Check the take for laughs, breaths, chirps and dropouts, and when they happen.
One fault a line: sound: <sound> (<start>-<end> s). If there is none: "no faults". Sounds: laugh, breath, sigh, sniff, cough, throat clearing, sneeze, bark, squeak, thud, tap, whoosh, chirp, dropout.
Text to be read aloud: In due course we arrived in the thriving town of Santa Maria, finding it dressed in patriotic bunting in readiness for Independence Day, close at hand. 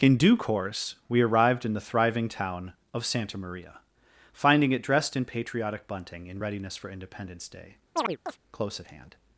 sound: chirp (8.0-8.4 s)